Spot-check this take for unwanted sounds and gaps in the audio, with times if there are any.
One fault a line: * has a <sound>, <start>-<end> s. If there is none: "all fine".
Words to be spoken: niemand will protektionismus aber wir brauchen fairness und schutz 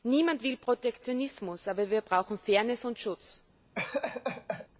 * has a laugh, 3.8-4.7 s